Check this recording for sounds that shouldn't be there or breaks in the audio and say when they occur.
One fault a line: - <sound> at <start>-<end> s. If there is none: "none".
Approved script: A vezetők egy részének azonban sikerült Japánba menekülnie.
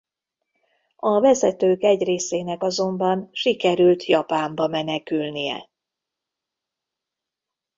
none